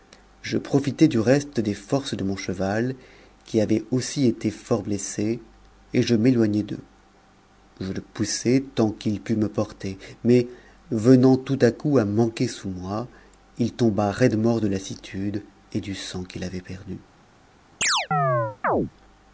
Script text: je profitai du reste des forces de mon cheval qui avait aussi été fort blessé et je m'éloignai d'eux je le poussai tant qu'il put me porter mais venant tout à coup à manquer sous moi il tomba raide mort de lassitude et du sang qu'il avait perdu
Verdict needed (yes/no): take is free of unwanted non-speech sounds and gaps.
no